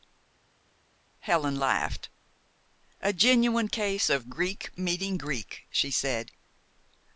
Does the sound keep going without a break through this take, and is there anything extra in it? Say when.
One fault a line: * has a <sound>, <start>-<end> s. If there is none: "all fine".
all fine